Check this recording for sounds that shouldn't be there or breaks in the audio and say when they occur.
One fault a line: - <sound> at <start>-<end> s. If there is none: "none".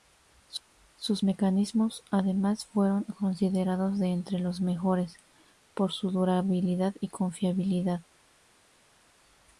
none